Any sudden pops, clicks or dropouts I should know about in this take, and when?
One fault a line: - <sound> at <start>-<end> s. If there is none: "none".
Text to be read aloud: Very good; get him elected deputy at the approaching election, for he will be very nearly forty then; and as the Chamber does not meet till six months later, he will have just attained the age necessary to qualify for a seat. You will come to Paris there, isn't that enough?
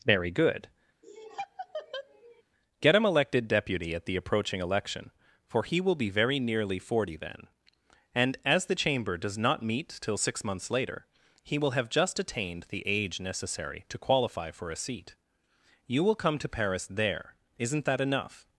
- laugh at 1.0-2.4 s